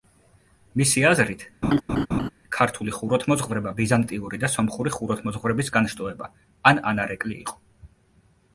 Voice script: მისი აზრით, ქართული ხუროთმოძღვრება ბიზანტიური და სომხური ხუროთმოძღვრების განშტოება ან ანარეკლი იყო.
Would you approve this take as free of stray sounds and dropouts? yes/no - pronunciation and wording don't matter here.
no